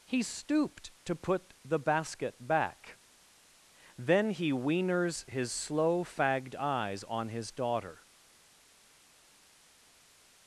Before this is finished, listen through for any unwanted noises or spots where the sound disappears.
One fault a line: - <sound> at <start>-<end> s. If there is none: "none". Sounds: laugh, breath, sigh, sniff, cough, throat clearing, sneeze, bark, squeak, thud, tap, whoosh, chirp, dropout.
none